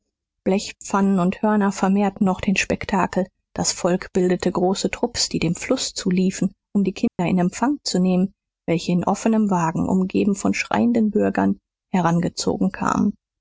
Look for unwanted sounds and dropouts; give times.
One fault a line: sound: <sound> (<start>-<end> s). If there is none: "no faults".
sound: dropout (7.1-7.2 s)